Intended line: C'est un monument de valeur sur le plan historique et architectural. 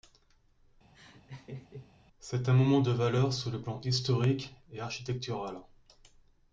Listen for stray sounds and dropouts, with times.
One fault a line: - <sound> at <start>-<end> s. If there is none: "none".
- laugh at 0.9-1.9 s